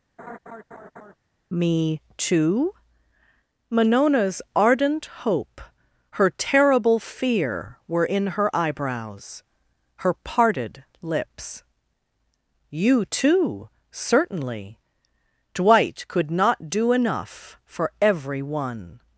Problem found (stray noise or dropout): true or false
true